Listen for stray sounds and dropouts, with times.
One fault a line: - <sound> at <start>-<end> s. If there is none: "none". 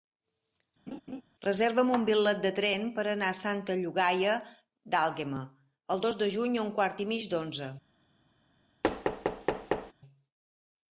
- laugh at 0.9-1.2 s
- thud at 8.8-9.9 s